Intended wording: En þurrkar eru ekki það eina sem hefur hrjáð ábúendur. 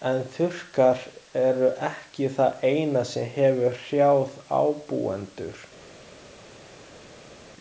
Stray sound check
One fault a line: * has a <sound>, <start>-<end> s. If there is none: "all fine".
all fine